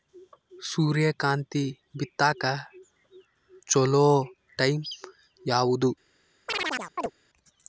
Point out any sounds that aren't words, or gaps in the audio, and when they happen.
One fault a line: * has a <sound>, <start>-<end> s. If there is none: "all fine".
* has a chirp, 6.5-7.1 s